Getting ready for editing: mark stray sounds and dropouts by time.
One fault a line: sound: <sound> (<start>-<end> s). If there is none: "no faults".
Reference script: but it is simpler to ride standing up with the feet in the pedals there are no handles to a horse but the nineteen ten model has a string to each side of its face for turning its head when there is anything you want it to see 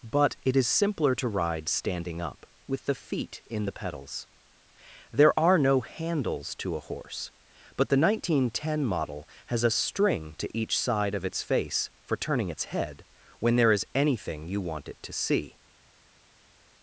no faults